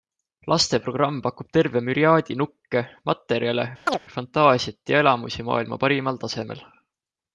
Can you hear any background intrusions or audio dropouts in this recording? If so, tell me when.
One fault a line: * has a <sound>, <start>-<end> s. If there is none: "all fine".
* has a chirp, 3.9-4.0 s